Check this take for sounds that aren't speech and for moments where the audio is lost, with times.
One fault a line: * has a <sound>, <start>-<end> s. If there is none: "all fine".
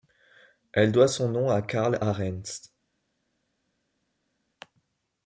all fine